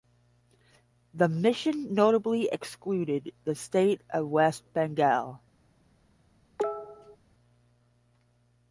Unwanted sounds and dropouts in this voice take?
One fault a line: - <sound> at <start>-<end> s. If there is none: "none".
- cough at 6.6-7.2 s